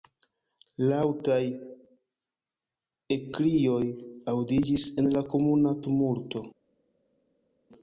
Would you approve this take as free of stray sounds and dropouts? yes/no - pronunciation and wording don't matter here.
yes